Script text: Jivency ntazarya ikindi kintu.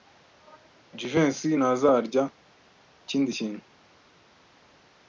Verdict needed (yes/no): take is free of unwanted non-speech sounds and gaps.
yes